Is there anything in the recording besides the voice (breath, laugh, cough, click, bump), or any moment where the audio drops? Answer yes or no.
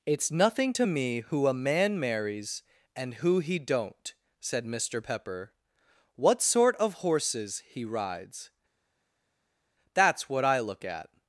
no